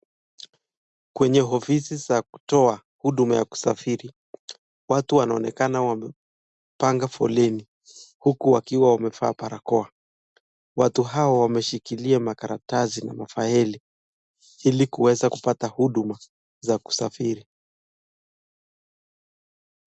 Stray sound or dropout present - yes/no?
no